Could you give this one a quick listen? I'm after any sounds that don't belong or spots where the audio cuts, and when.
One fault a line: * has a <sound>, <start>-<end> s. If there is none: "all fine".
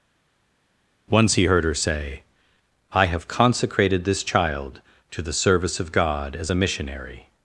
all fine